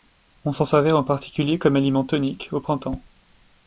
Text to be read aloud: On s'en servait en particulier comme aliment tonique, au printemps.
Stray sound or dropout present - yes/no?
no